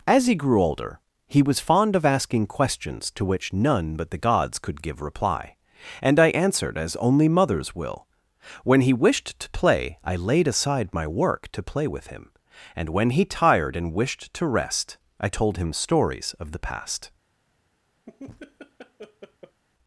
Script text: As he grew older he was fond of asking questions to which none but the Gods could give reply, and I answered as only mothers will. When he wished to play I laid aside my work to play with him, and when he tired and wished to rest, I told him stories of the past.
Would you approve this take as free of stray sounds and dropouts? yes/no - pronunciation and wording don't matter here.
no